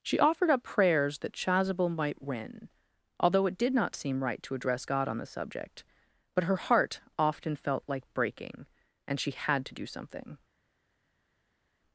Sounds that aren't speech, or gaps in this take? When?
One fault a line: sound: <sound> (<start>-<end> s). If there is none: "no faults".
no faults